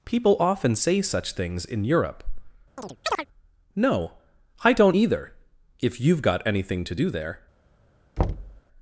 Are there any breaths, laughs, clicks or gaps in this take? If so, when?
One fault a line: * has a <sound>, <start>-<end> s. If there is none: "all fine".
* has a chirp, 2.8-3.3 s
* has a thud, 8.2-8.6 s